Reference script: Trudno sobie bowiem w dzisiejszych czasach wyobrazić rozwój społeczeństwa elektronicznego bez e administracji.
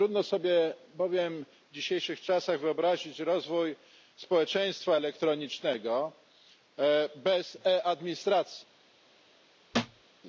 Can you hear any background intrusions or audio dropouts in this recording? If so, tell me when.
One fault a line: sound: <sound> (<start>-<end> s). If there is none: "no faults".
sound: thud (9.7-10.0 s)